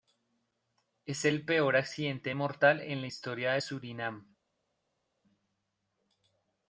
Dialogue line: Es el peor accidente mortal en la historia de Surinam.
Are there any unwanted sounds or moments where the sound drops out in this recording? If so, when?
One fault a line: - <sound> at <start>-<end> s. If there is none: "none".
none